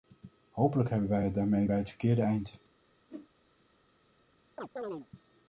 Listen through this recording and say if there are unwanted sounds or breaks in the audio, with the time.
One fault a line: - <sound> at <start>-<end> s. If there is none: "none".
- whoosh at 3.1-3.3 s
- chirp at 4.6-5.1 s